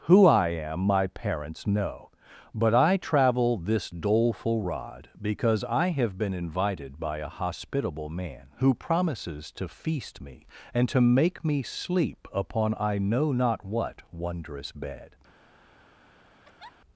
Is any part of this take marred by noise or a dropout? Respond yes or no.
yes